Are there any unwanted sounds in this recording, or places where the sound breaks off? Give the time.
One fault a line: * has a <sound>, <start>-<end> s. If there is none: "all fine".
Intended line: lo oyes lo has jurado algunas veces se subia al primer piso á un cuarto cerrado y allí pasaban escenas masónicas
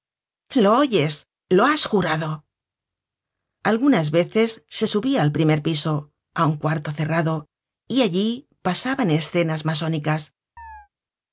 * has a chirp, 10.6-10.9 s